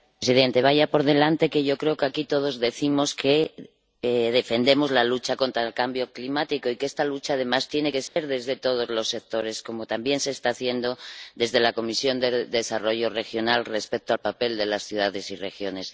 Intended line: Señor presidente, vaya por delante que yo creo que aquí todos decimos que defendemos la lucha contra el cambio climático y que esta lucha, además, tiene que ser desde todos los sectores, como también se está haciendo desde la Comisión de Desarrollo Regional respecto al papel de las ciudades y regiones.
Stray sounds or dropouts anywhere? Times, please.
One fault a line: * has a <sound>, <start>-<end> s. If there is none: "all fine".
* has a dropout, 8.1-8.2 s